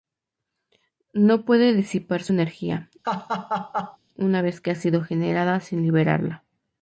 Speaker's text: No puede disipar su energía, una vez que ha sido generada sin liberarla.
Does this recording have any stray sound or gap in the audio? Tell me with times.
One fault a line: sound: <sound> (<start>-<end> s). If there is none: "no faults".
sound: laugh (3.0-4.0 s)